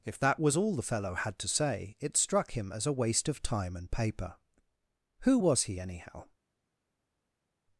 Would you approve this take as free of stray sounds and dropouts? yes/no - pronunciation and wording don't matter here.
yes